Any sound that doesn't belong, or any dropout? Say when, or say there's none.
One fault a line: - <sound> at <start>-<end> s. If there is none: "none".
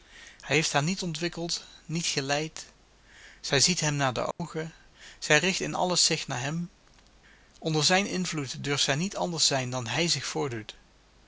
- dropout at 4.3-4.4 s